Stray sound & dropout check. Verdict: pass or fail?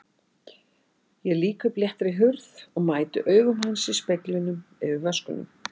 pass